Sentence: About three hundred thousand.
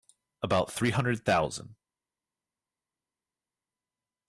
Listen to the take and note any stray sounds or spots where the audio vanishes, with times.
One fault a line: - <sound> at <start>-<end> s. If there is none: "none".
none